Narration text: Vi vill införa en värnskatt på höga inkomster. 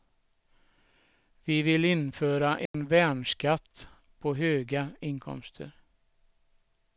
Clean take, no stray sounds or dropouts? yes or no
no